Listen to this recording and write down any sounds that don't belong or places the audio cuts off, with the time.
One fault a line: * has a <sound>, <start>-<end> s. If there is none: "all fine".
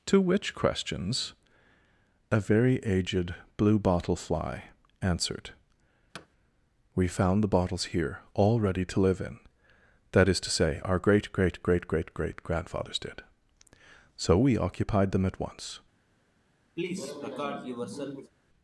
* has a thud, 6.1-6.3 s
* has a cough, 16.8-18.3 s